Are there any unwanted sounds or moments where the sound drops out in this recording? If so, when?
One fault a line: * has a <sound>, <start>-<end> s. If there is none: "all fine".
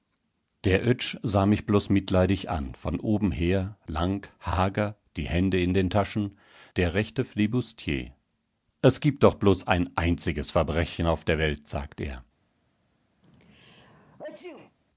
* has a sneeze, 13.2-14.8 s